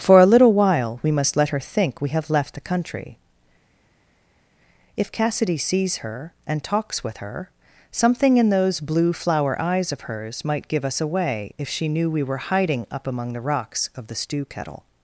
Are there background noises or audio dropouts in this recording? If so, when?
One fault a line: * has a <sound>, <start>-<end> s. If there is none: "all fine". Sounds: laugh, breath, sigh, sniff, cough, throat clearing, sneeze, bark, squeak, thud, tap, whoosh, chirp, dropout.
all fine